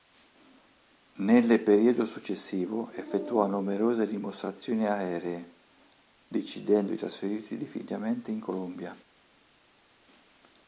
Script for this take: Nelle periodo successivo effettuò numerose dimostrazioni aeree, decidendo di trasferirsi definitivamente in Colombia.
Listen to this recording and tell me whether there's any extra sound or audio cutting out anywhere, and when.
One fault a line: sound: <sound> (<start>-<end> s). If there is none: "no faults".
no faults